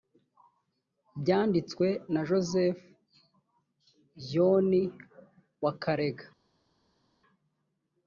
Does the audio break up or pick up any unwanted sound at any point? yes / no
no